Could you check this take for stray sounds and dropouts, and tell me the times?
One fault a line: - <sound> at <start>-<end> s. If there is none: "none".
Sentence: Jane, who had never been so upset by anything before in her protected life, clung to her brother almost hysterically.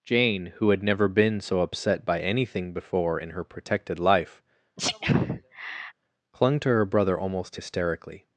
- sneeze at 4.8-5.9 s